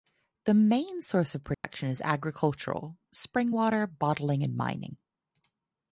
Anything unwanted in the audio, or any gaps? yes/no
yes